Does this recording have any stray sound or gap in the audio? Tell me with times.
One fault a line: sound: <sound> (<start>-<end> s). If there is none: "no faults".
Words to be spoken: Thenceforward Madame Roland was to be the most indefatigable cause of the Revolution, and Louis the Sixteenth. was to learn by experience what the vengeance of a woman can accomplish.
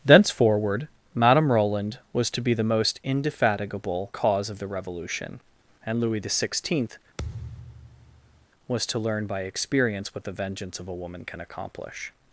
sound: thud (7.2-8.5 s)